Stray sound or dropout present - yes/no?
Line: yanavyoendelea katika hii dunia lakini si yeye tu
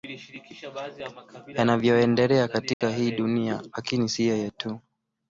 yes